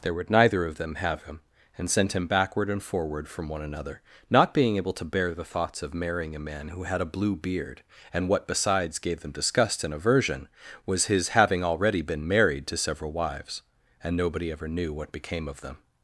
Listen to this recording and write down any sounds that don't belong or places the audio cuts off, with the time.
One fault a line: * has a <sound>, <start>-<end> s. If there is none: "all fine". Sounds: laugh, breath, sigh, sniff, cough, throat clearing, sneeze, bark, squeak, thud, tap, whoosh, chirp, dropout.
all fine